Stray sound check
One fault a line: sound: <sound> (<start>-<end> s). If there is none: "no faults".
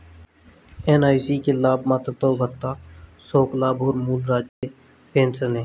sound: dropout (4.5-4.6 s)